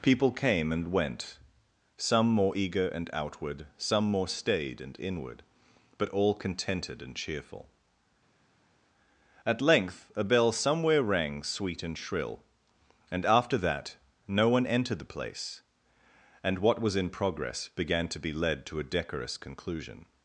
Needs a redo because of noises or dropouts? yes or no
no